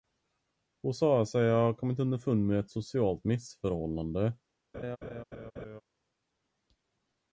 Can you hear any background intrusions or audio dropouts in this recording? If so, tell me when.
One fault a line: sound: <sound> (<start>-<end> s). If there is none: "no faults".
sound: laugh (4.7-5.8 s)